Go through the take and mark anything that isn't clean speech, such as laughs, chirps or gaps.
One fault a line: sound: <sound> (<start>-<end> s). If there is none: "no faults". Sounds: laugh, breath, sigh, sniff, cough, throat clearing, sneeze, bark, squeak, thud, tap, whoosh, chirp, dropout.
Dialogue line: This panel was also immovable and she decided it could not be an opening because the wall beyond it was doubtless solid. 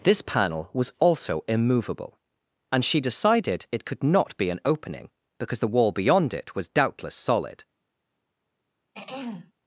sound: throat clearing (8.9-9.5 s)